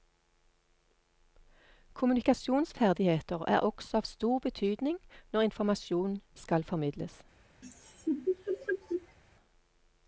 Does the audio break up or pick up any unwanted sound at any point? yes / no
yes